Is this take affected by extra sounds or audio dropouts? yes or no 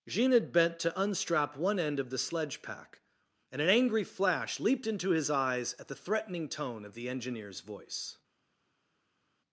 no